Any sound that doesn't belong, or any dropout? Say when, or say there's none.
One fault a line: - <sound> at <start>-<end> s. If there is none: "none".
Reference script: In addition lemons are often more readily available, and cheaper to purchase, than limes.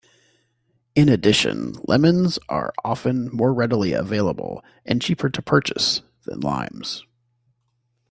none